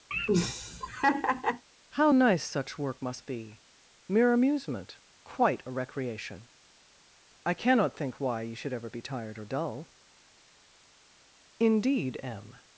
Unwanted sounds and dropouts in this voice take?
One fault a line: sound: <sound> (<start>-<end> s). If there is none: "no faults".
sound: laugh (0.1-1.6 s)